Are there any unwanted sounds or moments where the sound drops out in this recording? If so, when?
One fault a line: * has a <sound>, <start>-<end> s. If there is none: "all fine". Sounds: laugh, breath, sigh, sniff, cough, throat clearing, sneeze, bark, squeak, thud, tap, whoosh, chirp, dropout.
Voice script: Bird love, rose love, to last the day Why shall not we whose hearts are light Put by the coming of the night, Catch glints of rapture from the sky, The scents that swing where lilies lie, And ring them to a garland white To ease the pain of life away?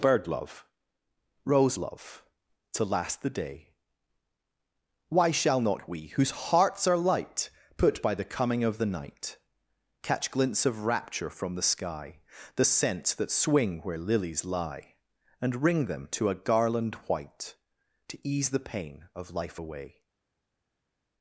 all fine